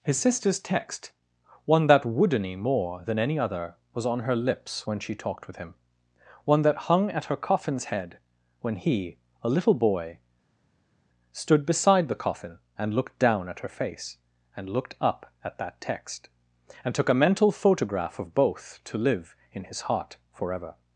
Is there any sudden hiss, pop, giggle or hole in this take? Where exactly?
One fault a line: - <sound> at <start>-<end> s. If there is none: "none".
none